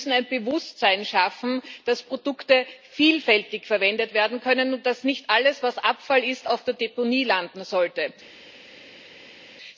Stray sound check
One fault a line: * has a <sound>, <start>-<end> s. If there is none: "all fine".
all fine